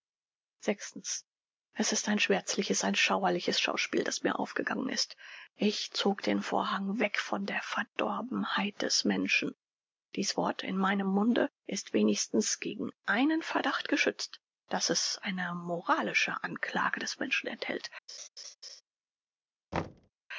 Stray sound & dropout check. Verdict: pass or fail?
fail